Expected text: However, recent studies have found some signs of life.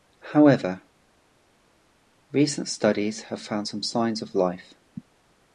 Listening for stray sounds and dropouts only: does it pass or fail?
pass